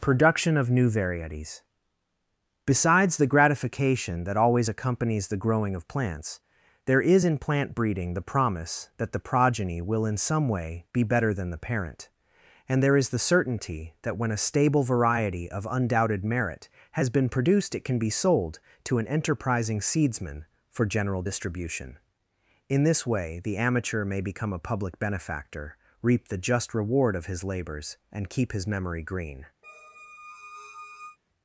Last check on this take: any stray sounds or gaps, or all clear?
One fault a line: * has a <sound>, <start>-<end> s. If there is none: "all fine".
* has a squeak, 29.6-31.2 s